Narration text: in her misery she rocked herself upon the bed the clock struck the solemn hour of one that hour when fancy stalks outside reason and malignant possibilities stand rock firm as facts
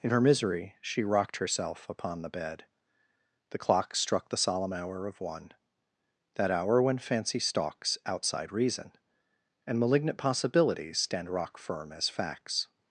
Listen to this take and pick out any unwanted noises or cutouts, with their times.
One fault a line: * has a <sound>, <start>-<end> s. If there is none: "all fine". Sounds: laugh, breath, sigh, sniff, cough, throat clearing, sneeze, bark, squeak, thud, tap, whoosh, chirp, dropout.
all fine